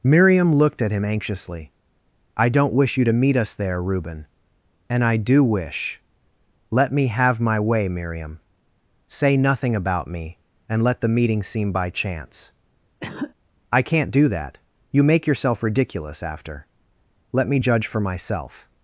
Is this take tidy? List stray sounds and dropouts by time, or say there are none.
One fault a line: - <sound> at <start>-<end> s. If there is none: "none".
- cough at 13.0-13.3 s